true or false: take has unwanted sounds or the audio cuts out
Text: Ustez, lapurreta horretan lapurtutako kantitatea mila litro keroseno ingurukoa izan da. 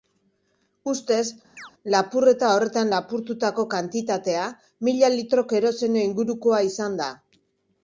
true